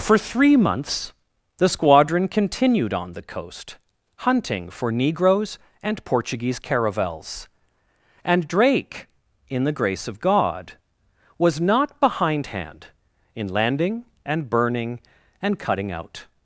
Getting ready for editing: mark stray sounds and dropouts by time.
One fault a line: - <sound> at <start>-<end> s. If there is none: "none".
none